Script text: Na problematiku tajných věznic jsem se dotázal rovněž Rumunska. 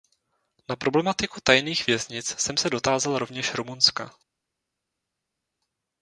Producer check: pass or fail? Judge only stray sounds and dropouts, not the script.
pass